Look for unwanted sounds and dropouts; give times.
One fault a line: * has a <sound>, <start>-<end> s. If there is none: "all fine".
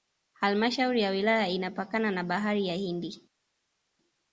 all fine